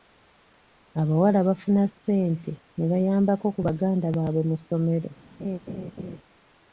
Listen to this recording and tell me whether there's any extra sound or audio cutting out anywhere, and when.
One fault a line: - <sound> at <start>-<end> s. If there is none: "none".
- laugh at 5.4-6.2 s